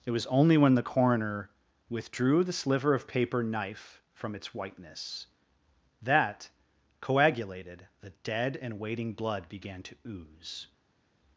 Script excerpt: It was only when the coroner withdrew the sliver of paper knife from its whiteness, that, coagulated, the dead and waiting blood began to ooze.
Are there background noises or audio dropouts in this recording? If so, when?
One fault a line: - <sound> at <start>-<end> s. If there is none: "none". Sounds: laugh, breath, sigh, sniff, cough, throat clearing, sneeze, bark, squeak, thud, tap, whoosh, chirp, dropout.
none